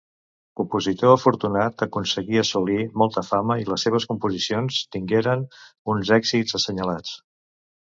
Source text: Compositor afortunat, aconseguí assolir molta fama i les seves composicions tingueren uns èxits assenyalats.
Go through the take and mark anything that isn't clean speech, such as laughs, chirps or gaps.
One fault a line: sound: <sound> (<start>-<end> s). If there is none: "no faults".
no faults